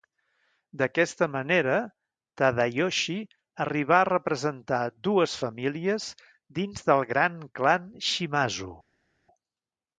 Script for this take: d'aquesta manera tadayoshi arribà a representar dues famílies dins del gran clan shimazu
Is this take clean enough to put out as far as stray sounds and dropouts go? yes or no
yes